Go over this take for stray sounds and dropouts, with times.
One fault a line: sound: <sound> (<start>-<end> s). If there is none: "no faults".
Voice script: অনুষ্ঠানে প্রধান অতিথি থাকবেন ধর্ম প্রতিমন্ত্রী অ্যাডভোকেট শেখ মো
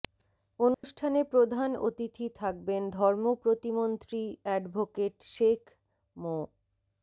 sound: dropout (0.7-0.8 s)